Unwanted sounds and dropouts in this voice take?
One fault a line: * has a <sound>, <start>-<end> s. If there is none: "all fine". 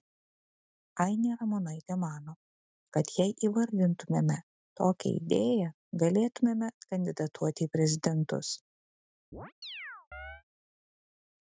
* has a chirp, 9.3-10.4 s